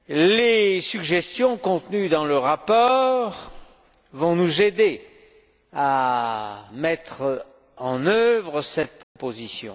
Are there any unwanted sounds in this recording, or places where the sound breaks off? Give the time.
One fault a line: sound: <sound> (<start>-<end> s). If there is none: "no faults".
sound: dropout (9.0-9.2 s)